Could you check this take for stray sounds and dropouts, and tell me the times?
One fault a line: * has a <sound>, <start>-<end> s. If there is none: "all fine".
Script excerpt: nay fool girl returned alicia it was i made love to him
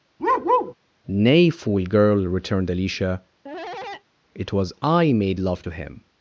* has a bark, 0.2-0.7 s
* has a cough, 3.4-4.0 s